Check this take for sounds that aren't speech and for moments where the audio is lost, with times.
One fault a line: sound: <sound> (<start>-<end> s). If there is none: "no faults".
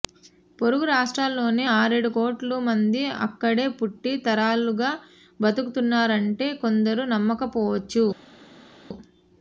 no faults